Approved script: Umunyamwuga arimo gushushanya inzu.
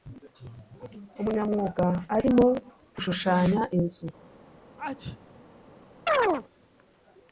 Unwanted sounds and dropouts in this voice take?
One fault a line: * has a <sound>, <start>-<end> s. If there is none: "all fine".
* has a sneeze, 4.8-5.4 s
* has a chirp, 6.1-6.5 s